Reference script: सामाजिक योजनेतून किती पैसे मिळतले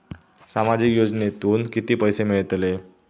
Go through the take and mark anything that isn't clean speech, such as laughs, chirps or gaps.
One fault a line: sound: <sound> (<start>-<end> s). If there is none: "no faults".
no faults